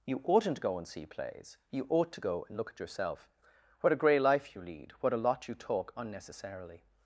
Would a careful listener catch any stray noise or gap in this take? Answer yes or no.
no